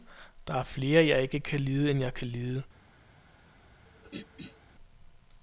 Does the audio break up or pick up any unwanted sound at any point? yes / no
yes